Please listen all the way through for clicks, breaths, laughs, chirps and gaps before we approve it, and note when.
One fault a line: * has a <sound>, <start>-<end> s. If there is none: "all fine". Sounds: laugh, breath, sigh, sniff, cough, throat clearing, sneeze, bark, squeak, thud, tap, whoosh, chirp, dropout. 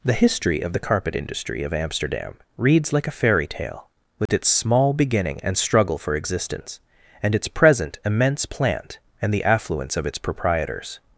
* has a dropout, 4.3-4.3 s